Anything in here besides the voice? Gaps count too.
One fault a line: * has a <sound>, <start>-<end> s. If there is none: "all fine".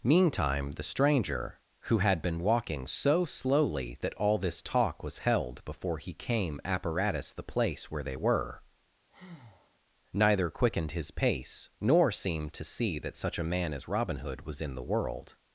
* has a breath, 9.1-9.8 s